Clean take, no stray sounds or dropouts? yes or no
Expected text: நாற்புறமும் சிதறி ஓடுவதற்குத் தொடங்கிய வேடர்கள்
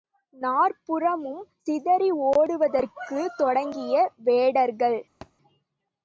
no